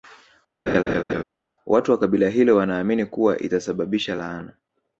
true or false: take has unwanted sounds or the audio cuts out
true